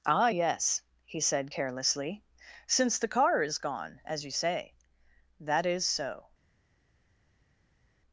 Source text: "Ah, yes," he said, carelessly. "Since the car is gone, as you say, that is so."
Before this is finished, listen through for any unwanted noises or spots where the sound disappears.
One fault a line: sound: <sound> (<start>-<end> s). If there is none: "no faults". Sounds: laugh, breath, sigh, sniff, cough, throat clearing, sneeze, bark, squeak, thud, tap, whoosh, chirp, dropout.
no faults